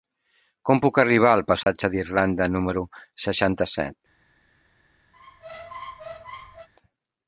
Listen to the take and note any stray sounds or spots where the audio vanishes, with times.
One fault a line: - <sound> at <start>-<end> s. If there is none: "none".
- dropout at 1.6-1.7 s
- squeak at 5.1-6.7 s